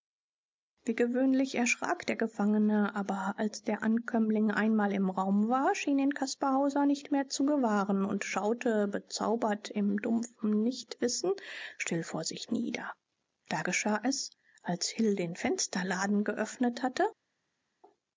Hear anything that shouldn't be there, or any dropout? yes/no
no